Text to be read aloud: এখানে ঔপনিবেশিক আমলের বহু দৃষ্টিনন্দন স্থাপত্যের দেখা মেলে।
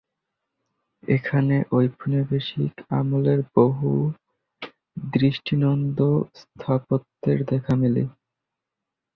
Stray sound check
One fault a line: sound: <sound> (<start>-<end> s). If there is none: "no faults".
no faults